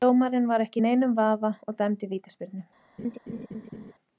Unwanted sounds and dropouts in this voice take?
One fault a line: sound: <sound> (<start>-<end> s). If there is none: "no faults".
sound: laugh (3.0-3.9 s)